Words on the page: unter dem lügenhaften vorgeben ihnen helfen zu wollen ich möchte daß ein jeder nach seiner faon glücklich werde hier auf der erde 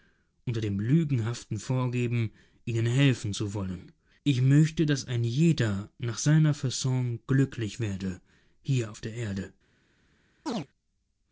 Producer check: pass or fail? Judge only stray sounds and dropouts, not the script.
fail